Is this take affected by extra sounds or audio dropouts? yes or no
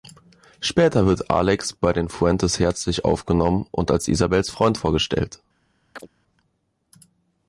yes